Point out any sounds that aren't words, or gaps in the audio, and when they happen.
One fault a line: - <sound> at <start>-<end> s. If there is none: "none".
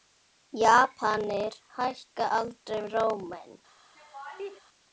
- laugh at 3.9-4.6 s